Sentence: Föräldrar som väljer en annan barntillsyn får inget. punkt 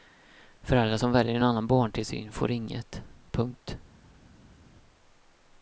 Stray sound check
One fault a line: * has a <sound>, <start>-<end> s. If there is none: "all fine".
all fine